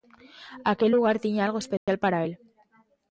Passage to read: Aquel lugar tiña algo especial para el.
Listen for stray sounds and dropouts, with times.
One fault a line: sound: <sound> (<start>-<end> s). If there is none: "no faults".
sound: dropout (1.8-1.9 s)